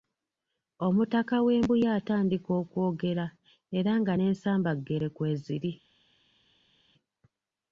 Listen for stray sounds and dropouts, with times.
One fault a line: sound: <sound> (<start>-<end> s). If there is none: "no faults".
no faults